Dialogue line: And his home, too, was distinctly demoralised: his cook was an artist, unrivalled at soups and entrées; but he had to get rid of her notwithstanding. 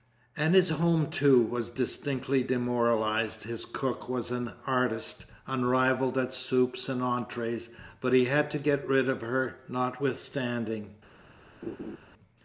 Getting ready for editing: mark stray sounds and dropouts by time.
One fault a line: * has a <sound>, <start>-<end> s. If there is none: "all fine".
* has a laugh, 11.6-12.0 s